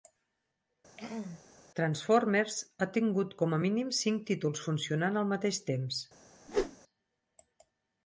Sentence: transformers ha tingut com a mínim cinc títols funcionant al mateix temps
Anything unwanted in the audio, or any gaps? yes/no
yes